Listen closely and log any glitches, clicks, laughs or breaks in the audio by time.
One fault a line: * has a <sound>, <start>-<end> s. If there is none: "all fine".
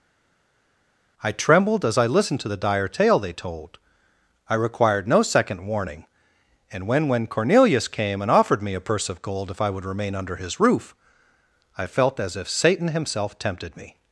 all fine